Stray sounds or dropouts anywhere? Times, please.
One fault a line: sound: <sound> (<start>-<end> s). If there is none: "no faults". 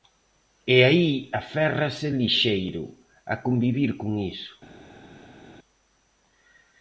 no faults